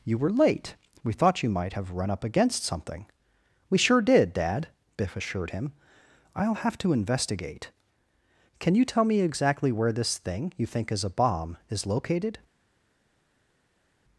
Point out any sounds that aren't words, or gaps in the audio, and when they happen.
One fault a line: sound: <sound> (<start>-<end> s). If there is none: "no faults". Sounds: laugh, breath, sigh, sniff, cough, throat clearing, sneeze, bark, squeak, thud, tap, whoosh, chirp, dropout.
no faults